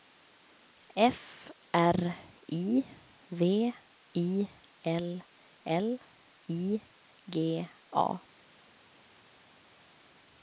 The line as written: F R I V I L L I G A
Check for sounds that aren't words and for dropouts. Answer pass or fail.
pass